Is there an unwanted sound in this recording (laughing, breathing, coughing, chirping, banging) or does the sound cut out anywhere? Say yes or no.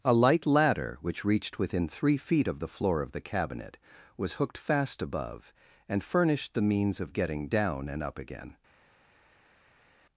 no